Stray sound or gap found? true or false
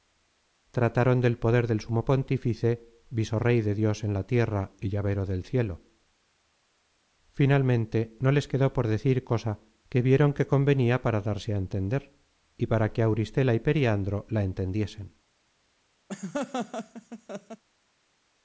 true